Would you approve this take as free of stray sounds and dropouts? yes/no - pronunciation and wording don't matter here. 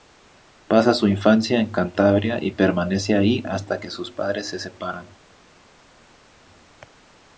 yes